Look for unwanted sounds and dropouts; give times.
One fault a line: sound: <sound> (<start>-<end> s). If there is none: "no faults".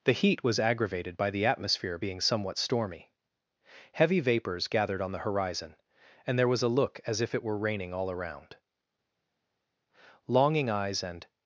no faults